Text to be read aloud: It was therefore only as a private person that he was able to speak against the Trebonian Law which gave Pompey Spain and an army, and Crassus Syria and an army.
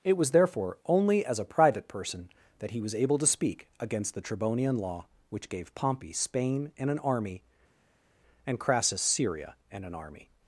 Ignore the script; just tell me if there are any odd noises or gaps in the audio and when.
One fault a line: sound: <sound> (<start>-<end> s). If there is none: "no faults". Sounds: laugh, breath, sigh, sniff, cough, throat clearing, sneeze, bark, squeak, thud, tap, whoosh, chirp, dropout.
no faults